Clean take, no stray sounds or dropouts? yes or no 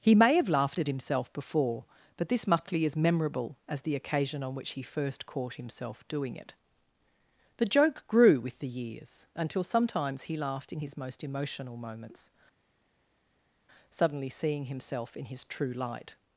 yes